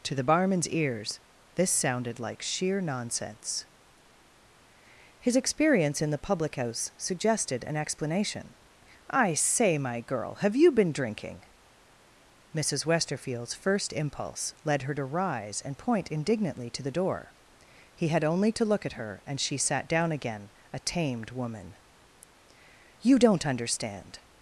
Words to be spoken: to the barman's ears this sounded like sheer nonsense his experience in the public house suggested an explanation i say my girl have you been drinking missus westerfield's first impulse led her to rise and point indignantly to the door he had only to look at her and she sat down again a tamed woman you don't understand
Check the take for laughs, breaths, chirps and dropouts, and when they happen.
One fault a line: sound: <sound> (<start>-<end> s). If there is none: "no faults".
no faults